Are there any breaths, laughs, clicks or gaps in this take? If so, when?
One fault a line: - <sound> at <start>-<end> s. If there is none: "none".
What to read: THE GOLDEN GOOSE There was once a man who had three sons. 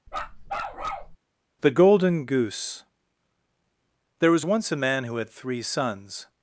- bark at 0.1-1.2 s